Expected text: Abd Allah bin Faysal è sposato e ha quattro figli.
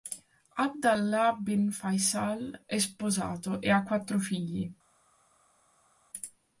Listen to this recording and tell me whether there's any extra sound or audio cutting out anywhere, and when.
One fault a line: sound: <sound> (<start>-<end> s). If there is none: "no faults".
no faults